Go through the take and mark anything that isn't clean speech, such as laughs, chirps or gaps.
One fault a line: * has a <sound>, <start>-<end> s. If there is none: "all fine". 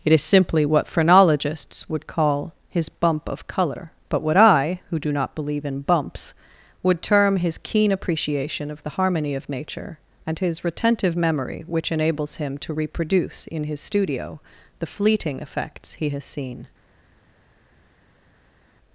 all fine